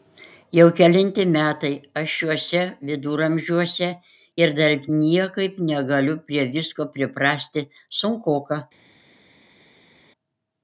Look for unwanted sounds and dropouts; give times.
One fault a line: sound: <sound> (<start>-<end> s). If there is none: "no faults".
no faults